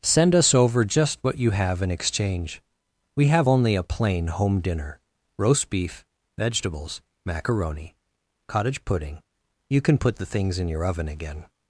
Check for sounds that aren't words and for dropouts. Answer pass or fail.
pass